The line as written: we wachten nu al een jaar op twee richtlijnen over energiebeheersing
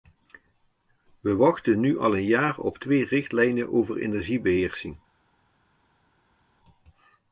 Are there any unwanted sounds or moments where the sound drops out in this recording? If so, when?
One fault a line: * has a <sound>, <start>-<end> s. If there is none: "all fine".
all fine